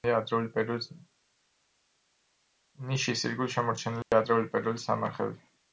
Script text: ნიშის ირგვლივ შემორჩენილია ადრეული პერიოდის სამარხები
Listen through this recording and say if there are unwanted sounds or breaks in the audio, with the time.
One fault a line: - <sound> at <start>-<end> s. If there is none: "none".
- dropout at 4.0-4.1 s